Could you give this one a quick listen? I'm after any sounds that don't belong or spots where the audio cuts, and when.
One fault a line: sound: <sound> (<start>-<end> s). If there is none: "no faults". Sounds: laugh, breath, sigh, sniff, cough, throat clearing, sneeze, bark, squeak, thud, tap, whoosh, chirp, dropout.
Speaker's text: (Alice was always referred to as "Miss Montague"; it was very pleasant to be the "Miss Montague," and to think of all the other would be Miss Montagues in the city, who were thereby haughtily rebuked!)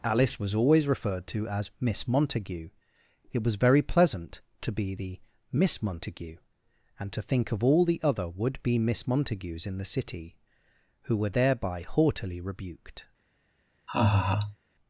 sound: laugh (13.9-14.6 s)